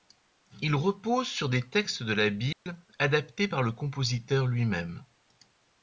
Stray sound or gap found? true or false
true